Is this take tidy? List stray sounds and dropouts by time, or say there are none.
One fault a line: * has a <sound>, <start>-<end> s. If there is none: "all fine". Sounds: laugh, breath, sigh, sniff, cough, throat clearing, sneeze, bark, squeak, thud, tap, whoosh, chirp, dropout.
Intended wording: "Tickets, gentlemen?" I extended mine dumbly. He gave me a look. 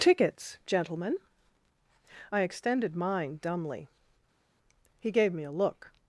all fine